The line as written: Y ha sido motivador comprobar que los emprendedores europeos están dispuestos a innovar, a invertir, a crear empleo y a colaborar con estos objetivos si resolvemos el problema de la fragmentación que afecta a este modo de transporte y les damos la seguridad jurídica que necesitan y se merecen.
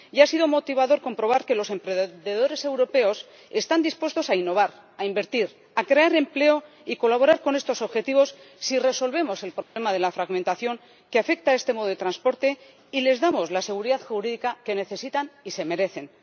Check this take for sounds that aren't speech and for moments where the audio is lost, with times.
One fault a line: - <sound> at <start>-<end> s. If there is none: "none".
- dropout at 9.6-9.8 s